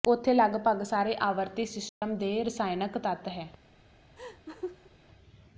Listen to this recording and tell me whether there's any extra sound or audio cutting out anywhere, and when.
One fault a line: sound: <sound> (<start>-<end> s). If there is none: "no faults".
sound: dropout (1.9-2.0 s)
sound: laugh (4.2-4.9 s)